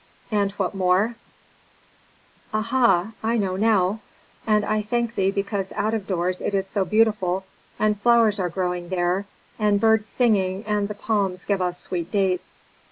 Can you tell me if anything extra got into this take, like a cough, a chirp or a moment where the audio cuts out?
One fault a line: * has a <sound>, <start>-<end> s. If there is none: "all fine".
all fine